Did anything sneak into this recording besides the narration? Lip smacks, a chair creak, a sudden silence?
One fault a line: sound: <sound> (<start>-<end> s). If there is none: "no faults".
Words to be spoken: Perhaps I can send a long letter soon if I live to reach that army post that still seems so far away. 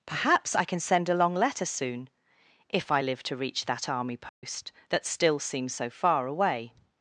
sound: dropout (4.3-4.4 s)